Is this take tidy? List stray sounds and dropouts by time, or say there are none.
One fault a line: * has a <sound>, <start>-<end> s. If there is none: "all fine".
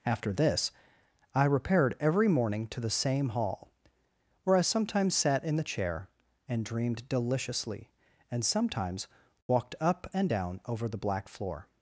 all fine